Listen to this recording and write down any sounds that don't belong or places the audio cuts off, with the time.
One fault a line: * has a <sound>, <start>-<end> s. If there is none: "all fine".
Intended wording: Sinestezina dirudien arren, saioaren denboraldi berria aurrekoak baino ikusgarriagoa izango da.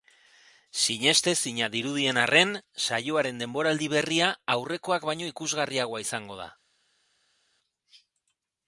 all fine